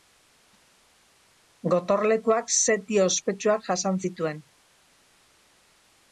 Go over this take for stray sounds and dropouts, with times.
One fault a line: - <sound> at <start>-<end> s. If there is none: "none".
none